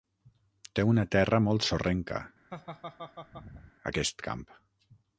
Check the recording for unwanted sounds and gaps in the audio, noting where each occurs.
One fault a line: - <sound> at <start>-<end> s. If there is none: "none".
- laugh at 2.5-3.7 s